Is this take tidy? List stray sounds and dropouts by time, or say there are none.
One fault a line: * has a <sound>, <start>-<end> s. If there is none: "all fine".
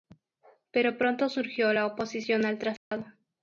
* has a dropout, 2.8-2.9 s